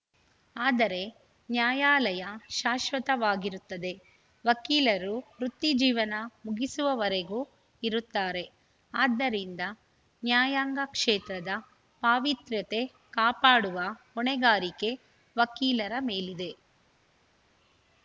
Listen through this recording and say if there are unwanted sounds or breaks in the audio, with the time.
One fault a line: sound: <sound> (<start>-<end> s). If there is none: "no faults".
no faults